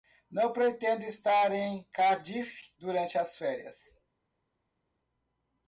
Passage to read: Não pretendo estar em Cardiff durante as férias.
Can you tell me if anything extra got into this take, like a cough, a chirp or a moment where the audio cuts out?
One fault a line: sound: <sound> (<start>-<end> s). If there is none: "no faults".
no faults